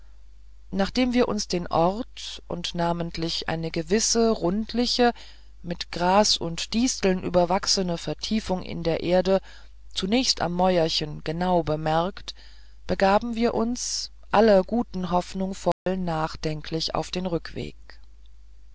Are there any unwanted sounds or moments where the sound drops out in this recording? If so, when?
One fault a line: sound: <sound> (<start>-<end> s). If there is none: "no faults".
sound: dropout (15.7-15.9 s)